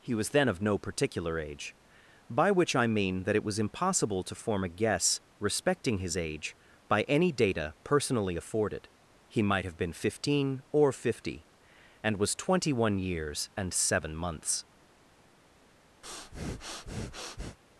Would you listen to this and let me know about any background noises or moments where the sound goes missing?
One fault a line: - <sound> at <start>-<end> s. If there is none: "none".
- breath at 16.0-17.6 s